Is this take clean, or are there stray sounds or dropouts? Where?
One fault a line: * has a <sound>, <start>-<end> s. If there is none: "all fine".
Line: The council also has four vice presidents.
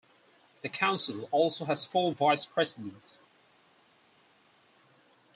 all fine